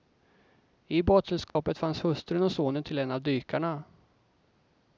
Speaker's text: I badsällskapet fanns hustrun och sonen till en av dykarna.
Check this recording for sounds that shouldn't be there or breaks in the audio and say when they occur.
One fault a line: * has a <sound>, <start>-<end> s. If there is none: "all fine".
* has a dropout, 1.5-1.6 s